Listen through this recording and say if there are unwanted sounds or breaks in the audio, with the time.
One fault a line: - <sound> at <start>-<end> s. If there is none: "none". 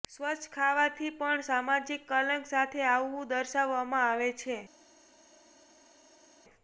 none